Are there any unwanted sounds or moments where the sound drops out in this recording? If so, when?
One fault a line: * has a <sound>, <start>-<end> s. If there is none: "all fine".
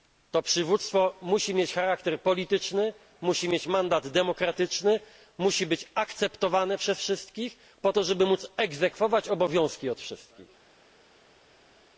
all fine